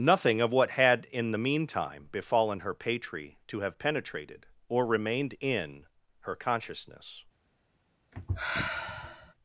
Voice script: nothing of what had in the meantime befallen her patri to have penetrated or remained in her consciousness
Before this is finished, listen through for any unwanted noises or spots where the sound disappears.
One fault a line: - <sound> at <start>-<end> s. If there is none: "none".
- sigh at 8.1-9.3 s